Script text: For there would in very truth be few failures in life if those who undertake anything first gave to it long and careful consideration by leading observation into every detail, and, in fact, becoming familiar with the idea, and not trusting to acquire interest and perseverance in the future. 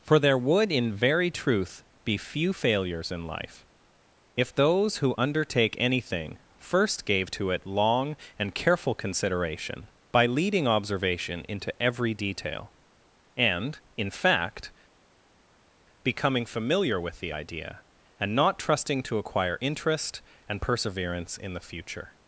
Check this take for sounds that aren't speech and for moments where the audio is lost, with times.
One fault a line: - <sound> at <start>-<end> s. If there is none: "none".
none